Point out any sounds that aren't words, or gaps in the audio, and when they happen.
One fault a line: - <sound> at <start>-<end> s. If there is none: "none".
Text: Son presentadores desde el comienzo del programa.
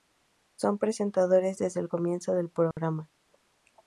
- dropout at 2.7-2.8 s